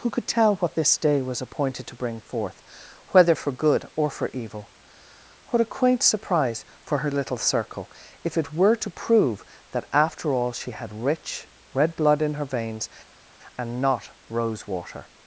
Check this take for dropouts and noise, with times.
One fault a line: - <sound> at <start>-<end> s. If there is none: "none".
none